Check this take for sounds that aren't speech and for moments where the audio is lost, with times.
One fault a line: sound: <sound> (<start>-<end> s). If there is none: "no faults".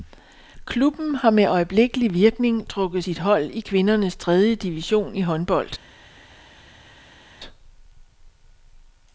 no faults